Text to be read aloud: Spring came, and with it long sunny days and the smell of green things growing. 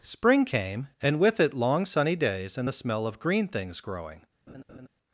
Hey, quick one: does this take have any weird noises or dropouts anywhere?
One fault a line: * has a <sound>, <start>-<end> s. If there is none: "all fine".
* has a laugh, 4.5-4.9 s